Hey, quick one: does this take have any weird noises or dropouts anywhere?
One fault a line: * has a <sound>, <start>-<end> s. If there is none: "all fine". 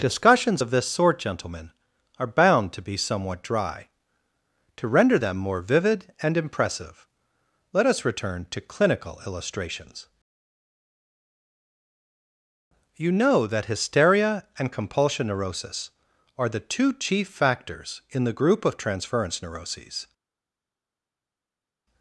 all fine